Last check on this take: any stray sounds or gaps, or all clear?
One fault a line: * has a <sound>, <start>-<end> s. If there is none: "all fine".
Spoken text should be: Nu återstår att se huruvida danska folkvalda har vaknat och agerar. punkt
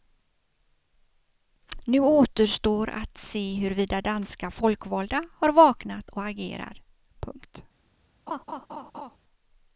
* has a laugh, 8.3-9.2 s